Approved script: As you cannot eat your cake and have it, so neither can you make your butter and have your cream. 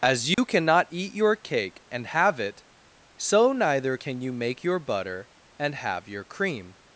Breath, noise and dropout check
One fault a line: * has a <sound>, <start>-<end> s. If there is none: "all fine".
* has a dropout, 0.3-0.4 s